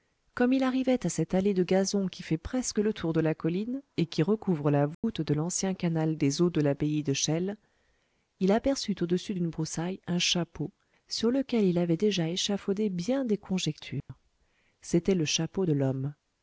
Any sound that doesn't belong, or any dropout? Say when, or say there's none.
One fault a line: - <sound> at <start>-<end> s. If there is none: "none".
- dropout at 4.9-5.0 s
- dropout at 14.0-14.1 s